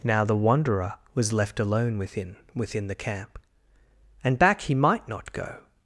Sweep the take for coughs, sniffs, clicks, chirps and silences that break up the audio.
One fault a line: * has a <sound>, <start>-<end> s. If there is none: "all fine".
all fine